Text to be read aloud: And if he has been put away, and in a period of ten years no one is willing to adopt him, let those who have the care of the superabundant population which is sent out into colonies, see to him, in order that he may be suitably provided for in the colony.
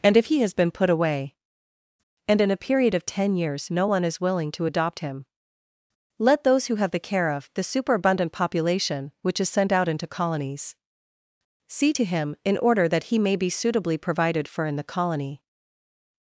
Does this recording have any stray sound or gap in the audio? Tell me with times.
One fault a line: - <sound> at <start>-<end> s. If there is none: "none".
none